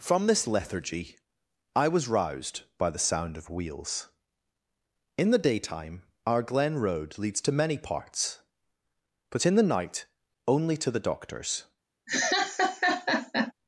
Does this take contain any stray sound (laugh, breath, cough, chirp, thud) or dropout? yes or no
yes